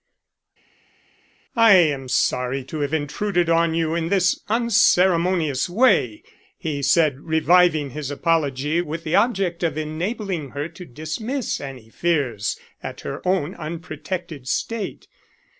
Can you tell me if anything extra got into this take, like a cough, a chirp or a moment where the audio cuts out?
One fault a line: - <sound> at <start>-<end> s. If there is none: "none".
none